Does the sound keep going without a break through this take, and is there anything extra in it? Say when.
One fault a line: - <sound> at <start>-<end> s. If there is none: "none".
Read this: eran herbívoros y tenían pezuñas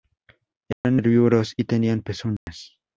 - dropout at 0.7-0.8 s
- dropout at 2.4-2.5 s